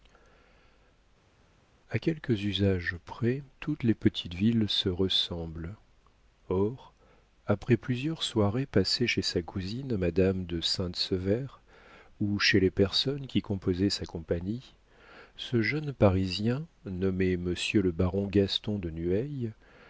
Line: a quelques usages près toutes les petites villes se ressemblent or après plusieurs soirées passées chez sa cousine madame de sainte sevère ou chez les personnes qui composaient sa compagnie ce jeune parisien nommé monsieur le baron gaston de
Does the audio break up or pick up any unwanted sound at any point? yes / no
no